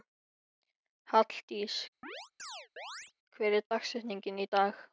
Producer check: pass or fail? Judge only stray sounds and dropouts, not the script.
fail